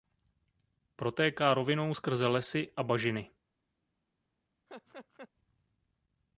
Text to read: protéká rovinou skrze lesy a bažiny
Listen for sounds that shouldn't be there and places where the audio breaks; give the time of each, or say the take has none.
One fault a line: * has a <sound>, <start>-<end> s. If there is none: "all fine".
* has a laugh, 4.7-5.3 s